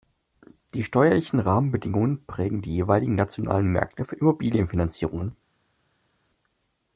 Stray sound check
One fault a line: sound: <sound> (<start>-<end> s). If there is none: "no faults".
no faults